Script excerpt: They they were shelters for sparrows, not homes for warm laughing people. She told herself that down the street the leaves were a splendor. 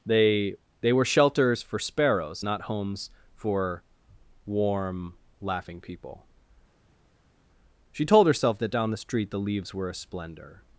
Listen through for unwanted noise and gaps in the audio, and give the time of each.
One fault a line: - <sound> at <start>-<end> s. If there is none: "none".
none